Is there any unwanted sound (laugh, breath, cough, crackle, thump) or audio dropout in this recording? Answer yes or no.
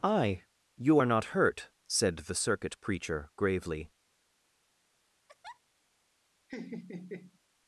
yes